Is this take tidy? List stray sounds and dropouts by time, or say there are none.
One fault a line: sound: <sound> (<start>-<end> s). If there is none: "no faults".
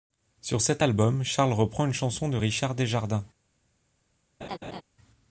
sound: laugh (4.4-4.8 s)